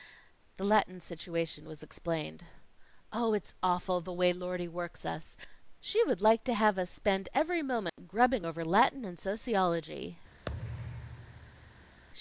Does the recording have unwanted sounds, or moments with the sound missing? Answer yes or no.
yes